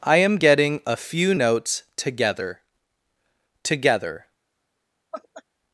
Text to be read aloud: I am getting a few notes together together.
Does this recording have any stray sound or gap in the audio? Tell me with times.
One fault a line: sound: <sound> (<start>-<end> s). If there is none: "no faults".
sound: laugh (5.1-5.4 s)